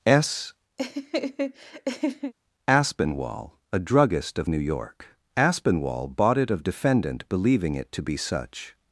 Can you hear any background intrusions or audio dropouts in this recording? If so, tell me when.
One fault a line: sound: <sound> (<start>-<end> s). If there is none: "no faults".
sound: laugh (0.8-2.3 s)